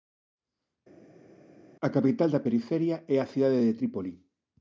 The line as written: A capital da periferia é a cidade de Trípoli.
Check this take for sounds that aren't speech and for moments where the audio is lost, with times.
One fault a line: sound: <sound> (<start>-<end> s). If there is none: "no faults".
no faults